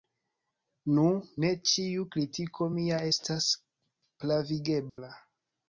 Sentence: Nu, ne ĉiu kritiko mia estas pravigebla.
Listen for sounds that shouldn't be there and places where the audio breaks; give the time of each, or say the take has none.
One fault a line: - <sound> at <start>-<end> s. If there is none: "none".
- dropout at 4.9-5.0 s